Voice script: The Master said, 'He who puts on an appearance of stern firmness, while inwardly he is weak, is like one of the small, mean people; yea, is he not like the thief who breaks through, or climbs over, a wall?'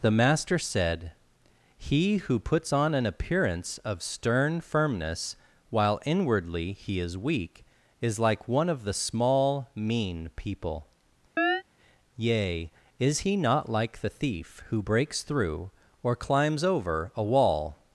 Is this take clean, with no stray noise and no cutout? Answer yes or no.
no